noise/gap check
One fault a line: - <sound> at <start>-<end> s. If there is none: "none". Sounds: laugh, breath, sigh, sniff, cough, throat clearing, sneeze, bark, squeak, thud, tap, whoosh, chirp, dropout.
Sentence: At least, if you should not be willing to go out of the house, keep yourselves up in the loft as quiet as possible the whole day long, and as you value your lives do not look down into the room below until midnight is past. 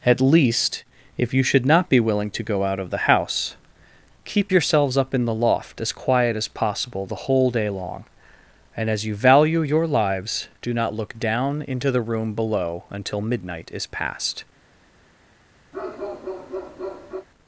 - bark at 15.7-17.3 s